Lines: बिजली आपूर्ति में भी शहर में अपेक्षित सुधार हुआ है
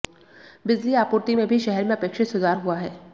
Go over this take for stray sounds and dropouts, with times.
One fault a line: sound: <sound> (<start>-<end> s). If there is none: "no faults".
no faults